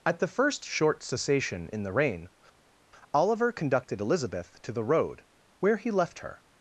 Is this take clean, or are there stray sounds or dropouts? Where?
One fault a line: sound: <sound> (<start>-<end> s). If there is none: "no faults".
no faults